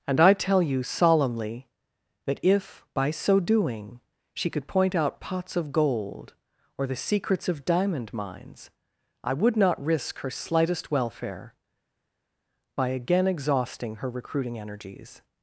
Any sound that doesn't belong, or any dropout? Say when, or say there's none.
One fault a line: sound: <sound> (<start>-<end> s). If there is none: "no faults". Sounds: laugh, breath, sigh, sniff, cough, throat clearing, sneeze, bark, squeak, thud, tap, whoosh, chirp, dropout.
no faults